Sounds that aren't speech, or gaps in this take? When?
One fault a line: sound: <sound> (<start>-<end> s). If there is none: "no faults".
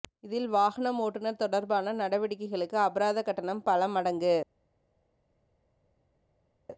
no faults